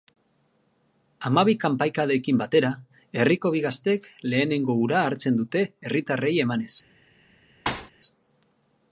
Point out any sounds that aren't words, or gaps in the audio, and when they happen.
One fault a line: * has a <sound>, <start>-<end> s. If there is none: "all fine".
* has a thud, 7.7-7.9 s